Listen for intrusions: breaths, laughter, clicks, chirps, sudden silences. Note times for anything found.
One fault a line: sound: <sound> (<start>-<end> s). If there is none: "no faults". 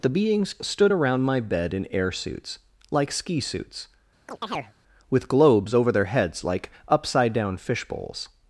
sound: chirp (4.3-4.7 s)